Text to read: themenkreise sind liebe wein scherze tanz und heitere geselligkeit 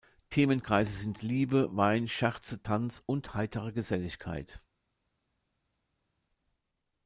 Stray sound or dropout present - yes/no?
no